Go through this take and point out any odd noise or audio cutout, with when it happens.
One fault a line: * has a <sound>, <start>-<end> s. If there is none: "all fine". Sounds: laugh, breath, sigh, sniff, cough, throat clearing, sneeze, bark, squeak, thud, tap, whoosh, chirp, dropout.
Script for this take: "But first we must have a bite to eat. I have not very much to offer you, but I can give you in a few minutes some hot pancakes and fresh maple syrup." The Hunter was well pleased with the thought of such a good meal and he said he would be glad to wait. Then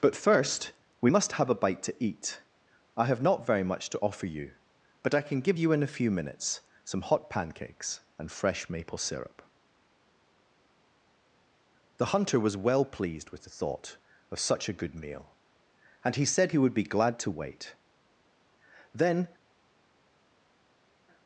all fine